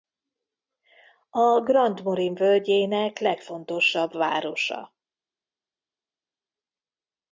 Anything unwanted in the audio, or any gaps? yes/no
no